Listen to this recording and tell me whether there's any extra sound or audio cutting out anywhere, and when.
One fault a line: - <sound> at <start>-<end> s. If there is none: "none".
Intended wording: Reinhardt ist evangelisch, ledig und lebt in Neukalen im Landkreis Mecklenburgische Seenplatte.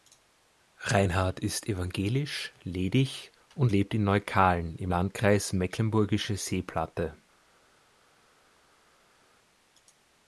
none